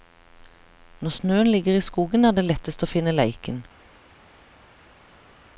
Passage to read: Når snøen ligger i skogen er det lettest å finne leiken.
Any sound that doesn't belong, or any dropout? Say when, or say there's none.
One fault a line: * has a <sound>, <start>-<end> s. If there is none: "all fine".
all fine